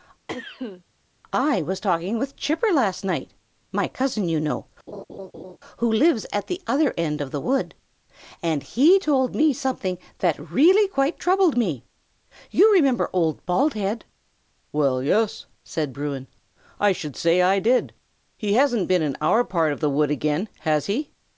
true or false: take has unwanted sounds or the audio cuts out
true